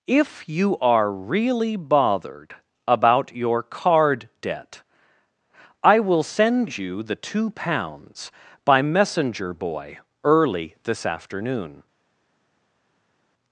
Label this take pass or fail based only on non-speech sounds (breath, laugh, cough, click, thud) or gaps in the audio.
pass